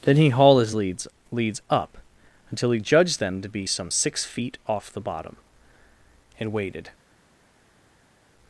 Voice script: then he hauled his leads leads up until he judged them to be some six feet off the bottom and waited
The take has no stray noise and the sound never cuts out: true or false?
true